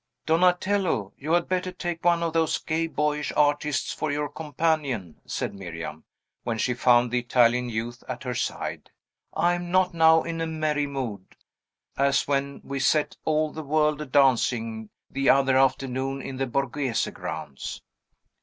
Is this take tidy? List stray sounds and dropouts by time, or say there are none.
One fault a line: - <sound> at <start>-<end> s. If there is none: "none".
none